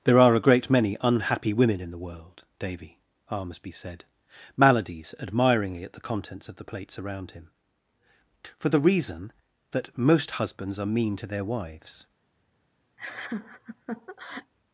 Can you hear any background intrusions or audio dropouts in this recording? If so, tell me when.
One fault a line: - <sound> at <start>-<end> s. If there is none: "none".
- laugh at 13.0-14.5 s